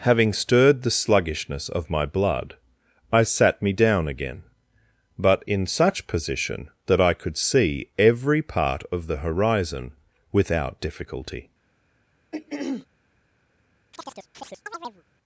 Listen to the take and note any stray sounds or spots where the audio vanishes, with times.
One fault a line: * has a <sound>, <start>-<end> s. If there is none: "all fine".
* has a throat clearing, 12.3-12.9 s
* has a chirp, 13.9-15.0 s